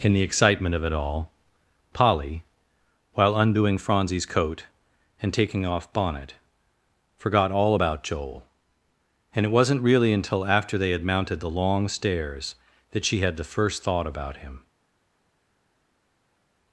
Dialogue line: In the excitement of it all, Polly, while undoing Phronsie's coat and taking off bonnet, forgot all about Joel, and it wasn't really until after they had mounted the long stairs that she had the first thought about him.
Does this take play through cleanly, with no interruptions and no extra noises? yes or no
yes